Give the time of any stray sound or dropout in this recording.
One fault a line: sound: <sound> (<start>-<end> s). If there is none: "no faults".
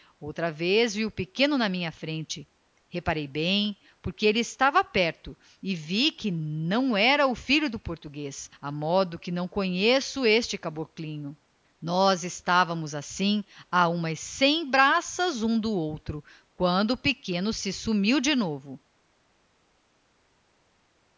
no faults